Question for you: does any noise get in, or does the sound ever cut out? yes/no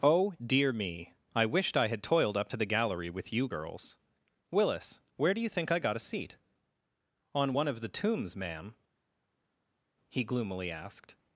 no